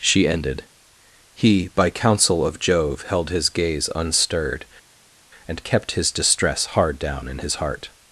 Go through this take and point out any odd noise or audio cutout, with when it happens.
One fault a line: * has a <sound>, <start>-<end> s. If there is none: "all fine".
all fine